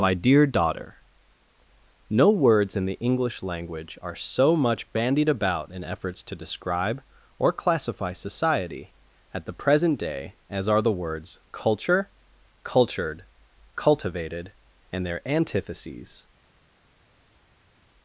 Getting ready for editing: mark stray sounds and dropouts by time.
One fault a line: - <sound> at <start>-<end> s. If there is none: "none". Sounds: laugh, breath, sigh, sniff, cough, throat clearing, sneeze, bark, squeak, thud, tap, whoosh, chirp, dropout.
none